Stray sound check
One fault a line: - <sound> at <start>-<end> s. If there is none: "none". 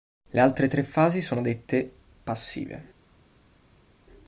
none